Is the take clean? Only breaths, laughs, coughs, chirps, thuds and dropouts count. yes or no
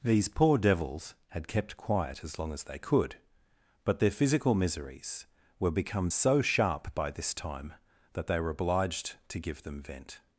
yes